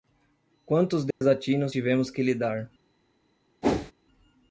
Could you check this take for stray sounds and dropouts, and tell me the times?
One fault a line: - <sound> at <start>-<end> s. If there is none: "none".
- dropout at 1.1-1.2 s
- whoosh at 3.6-3.9 s